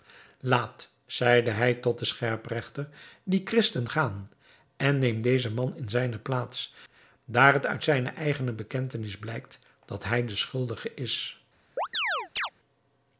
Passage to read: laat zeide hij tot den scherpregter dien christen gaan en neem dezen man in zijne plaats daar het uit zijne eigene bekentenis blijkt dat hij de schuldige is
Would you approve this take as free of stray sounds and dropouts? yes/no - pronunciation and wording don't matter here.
no